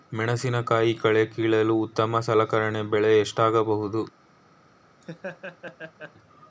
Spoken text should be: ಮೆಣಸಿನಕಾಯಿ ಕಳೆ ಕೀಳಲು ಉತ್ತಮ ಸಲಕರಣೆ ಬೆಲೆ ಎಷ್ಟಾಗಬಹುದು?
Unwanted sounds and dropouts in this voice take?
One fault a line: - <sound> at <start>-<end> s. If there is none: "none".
- laugh at 5.0-6.1 s